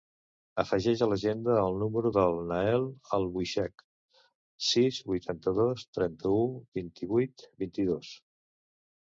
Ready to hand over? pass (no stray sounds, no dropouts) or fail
pass